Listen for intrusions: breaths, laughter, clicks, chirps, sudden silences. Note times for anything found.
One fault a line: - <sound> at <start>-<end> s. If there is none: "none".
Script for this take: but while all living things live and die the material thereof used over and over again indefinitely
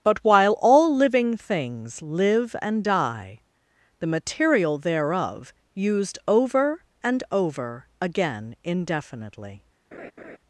- laugh at 9.9-10.4 s